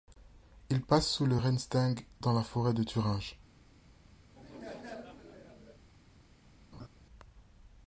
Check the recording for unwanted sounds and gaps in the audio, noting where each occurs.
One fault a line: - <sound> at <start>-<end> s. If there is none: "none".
- laugh at 4.3-5.8 s
- laugh at 6.7-6.9 s